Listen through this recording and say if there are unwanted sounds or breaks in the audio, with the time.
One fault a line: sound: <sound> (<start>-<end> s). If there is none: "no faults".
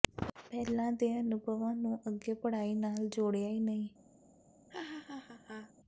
sound: laugh (4.7-5.7 s)